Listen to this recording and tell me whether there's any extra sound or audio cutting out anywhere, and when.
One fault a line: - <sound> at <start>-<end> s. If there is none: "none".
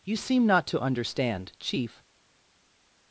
none